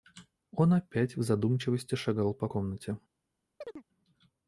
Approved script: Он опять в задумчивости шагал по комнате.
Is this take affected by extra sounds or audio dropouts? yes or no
yes